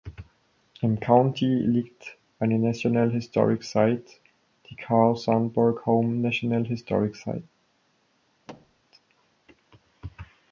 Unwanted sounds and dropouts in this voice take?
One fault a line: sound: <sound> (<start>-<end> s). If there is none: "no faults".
sound: thud (8.5-8.8 s)